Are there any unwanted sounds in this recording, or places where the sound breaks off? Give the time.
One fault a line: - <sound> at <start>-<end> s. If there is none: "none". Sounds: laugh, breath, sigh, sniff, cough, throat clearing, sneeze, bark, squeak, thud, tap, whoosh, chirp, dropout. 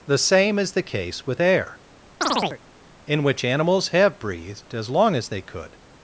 - chirp at 2.2-2.6 s